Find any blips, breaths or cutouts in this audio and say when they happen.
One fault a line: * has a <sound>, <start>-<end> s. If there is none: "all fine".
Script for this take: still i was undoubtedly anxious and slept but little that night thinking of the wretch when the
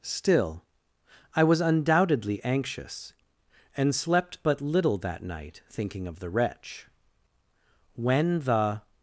all fine